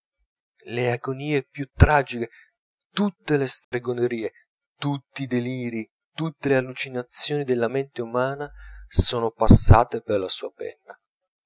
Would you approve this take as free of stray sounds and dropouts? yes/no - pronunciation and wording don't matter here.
no